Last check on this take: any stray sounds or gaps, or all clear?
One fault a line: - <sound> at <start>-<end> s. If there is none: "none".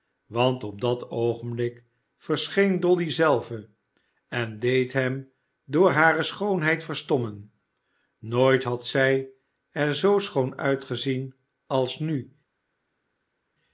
none